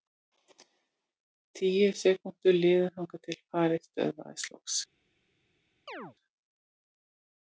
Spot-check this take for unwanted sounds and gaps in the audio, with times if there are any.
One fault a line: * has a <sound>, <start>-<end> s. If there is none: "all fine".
* has a chirp, 5.9-6.2 s